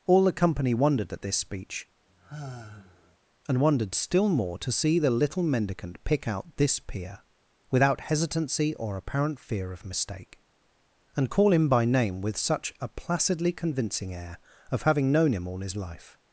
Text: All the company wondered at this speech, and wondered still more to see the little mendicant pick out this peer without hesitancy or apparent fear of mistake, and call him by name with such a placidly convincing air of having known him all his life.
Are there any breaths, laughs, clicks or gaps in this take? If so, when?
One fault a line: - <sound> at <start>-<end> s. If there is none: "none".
- sigh at 2.1-3.2 s